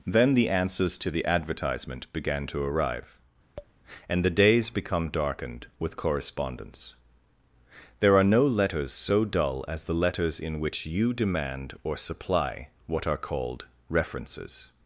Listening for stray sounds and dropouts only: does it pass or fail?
fail